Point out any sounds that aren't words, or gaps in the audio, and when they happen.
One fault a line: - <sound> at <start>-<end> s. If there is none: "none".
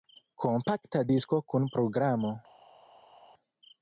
none